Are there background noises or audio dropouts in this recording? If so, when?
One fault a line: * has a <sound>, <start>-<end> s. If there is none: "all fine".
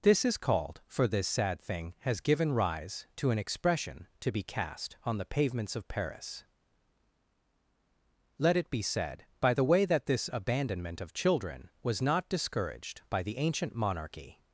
all fine